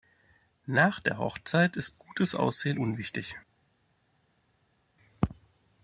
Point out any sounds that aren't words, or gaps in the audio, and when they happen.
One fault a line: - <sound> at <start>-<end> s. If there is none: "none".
none